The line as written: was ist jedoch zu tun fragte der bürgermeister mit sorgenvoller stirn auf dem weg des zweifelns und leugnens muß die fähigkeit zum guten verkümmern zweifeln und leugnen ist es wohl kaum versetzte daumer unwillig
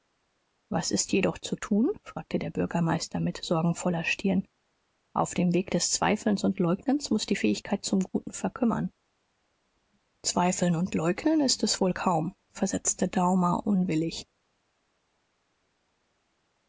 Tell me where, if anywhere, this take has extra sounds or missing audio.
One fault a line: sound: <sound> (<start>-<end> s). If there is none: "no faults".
no faults